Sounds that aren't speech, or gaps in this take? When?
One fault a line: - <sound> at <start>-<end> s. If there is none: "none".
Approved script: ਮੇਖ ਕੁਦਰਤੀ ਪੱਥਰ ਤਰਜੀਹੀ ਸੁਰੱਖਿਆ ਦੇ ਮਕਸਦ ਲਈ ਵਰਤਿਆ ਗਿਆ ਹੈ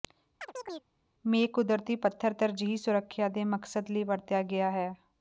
- chirp at 0.4-0.9 s